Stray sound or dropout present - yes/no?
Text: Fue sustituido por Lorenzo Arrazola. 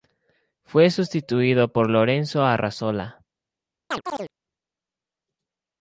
yes